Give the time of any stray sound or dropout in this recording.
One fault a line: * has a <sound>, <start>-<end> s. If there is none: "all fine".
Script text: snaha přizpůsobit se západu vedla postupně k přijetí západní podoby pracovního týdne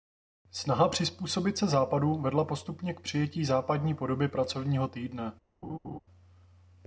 * has a laugh, 5.6-6.0 s